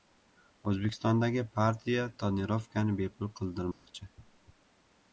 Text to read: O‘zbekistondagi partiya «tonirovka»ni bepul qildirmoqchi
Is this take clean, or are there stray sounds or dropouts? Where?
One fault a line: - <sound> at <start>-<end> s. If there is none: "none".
- dropout at 3.7-3.9 s